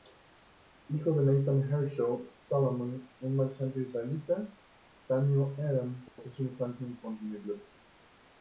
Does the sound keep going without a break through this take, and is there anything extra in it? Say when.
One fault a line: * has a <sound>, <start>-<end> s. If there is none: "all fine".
* has a dropout, 6.1-6.2 s